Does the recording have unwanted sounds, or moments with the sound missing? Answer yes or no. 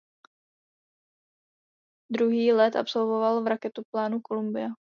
no